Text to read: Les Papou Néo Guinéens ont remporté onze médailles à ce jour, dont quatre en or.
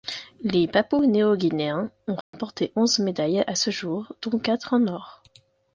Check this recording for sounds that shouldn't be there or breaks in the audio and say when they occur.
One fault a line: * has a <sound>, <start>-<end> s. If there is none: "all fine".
* has a dropout, 2.2-2.3 s